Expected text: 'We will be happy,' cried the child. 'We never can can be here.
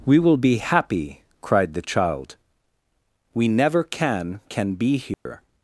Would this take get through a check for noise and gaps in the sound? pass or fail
fail